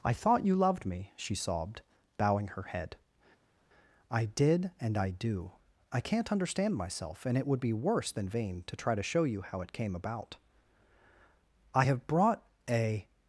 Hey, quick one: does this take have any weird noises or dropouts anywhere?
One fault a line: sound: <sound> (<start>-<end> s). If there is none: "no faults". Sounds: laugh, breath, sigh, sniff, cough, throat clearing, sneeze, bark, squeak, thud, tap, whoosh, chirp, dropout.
no faults